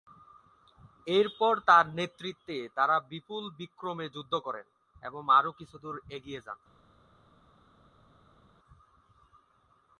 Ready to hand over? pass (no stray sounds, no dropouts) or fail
pass